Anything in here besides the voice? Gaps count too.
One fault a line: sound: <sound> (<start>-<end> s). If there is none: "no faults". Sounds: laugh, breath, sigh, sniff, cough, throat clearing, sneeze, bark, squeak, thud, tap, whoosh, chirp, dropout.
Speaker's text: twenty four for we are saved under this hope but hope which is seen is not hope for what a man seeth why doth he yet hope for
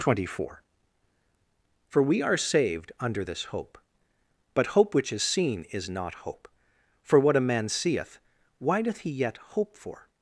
no faults